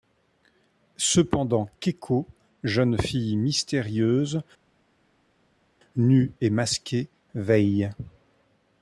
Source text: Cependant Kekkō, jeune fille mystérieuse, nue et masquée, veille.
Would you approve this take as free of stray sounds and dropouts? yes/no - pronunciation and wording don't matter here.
yes